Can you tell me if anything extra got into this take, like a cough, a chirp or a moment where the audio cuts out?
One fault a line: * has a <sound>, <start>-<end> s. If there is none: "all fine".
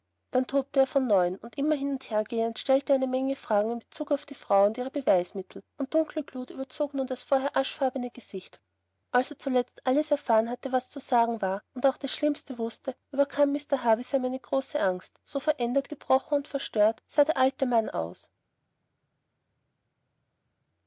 all fine